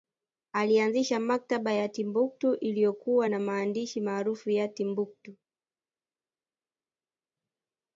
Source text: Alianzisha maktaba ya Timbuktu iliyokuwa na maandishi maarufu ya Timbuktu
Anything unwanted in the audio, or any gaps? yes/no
no